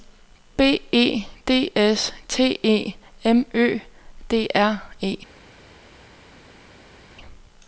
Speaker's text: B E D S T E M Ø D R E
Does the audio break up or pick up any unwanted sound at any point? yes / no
no